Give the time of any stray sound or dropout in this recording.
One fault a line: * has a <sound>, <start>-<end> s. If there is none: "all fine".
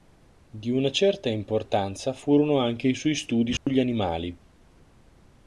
* has a dropout, 3.6-3.7 s